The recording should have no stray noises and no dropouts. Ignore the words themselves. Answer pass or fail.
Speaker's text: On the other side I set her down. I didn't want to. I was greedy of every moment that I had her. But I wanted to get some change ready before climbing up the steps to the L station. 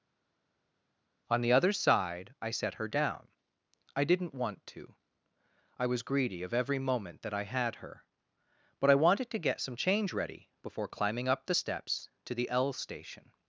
pass